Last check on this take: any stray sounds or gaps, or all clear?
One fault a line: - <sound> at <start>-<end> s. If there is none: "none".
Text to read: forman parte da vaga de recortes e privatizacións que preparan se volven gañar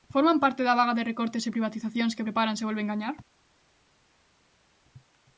none